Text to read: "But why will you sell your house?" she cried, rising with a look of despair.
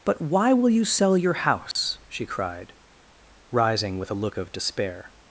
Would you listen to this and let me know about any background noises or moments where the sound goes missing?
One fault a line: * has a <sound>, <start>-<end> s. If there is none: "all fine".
* has a dropout, 1.7-1.8 s